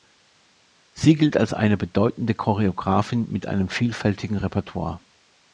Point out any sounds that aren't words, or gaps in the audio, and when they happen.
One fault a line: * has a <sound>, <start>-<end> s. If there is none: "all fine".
all fine